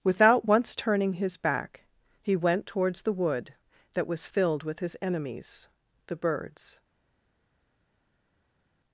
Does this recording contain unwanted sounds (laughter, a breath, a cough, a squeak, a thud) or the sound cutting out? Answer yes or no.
no